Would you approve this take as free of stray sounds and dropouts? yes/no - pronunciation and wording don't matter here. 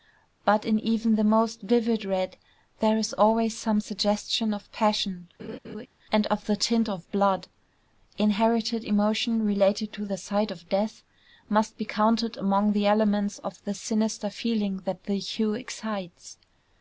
no